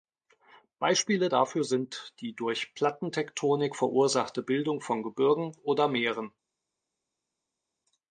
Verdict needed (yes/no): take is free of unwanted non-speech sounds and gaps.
yes